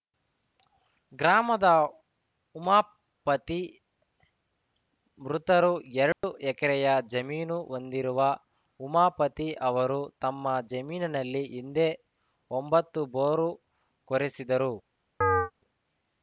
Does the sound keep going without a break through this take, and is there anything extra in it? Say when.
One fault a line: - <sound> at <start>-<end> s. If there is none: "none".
- dropout at 6.1-6.2 s
- chirp at 15.2-15.5 s